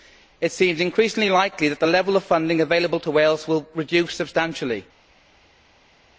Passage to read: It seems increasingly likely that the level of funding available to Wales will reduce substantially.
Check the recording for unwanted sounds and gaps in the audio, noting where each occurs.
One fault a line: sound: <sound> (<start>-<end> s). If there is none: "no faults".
no faults